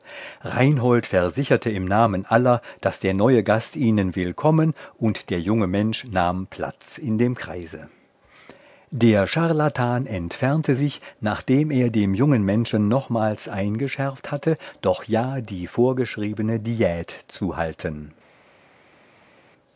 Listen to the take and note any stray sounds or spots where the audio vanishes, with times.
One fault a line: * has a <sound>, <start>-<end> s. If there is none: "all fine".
all fine